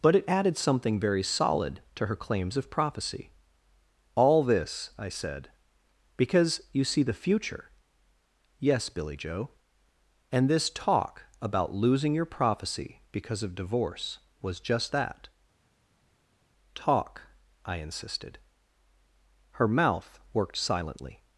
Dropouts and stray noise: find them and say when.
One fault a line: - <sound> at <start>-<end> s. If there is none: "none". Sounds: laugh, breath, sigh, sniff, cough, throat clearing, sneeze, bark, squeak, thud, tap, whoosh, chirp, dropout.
none